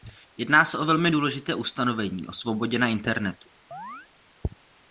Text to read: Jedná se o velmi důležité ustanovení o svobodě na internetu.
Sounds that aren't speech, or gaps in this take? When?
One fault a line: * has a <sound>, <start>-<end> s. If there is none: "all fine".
* has a chirp, 3.7-4.1 s